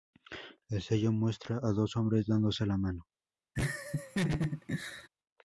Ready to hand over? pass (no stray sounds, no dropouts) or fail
fail